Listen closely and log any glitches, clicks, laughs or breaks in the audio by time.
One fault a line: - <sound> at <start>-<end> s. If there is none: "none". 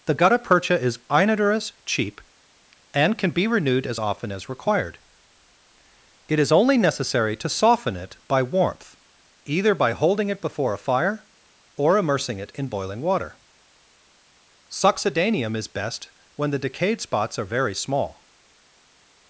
none